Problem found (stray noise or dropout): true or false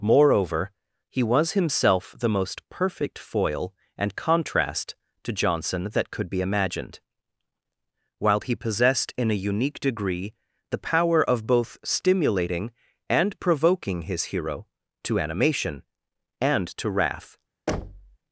true